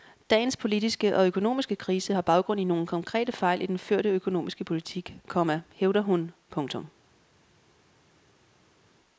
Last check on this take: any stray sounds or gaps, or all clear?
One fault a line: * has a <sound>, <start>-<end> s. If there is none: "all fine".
all fine